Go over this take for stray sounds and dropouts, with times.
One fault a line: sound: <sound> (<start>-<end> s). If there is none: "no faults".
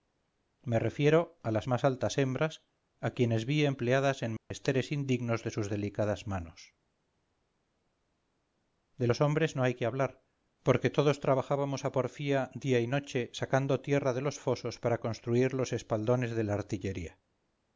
sound: dropout (4.4-4.5 s)